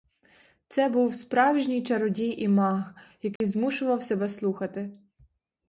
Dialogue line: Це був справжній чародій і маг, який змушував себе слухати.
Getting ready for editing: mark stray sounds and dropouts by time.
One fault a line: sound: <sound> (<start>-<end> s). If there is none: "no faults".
sound: dropout (3.4-3.4 s)